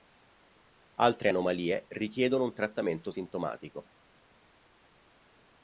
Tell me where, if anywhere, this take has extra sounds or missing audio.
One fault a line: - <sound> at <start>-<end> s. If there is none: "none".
none